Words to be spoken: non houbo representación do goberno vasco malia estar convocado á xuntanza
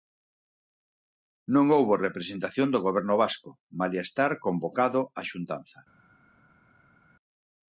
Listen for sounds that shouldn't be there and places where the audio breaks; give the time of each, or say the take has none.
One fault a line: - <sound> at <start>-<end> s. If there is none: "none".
none